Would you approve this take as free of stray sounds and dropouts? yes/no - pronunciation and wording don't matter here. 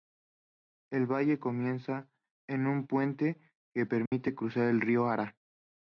no